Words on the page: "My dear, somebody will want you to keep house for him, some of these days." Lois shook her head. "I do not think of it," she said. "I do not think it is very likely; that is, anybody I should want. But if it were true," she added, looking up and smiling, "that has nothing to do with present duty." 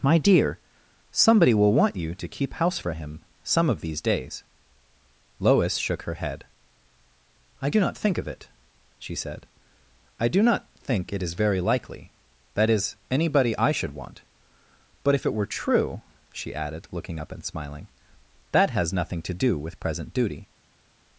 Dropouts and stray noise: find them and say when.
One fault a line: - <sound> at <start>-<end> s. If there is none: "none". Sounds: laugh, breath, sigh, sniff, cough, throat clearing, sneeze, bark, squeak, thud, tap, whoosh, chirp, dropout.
none